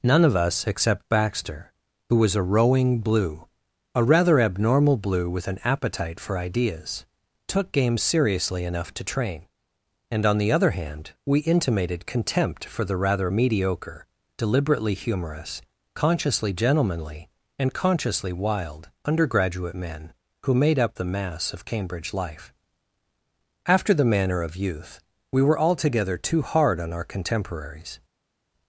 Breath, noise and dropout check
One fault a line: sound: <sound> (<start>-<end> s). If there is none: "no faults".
no faults